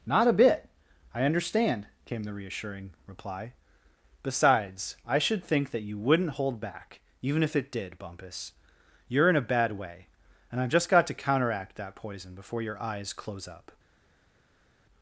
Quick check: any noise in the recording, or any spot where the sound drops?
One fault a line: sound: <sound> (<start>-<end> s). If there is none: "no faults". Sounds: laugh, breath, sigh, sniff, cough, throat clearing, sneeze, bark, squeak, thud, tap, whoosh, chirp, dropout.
no faults